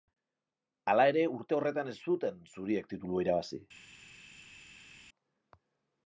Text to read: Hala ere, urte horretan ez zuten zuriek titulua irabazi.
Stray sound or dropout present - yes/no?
no